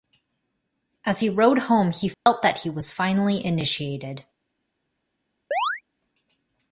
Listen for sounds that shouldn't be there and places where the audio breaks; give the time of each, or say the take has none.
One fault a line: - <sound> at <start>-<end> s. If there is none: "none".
- dropout at 2.1-2.3 s
- chirp at 5.5-5.8 s